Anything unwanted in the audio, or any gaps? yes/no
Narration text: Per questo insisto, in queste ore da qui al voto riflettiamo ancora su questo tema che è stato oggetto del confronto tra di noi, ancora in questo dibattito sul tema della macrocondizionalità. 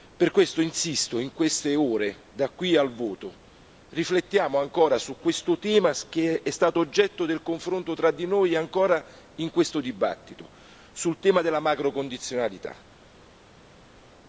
no